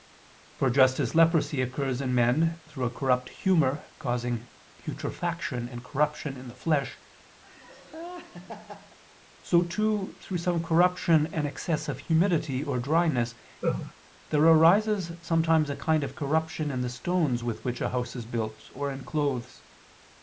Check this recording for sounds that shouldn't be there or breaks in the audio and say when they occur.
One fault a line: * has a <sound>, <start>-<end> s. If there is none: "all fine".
* has a laugh, 7.4-9.0 s
* has a laugh, 13.6-13.9 s